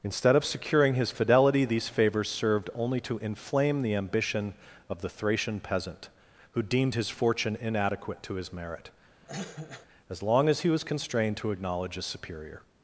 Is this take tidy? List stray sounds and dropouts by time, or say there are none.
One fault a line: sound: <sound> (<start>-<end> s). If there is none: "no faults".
sound: cough (9.2-9.9 s)